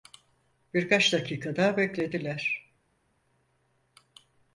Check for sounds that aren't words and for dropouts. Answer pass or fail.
pass